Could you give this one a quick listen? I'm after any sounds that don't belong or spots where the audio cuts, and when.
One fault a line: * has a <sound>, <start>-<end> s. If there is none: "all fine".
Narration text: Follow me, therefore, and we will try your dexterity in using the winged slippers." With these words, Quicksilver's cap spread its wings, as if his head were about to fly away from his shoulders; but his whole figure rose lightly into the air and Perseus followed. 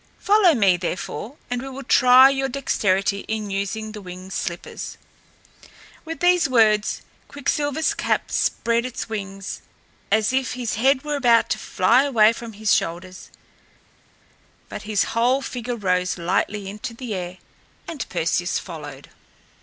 all fine